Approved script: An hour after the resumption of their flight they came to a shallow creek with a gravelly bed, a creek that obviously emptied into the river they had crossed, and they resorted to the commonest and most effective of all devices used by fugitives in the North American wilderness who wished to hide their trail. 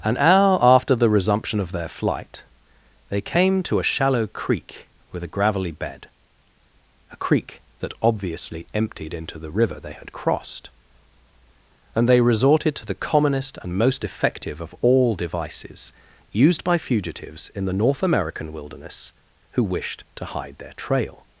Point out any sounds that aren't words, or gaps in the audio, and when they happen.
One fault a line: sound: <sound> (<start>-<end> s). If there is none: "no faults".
no faults